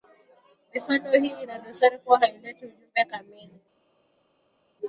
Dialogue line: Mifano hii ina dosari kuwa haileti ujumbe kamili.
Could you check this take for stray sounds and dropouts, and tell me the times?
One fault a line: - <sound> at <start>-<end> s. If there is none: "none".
none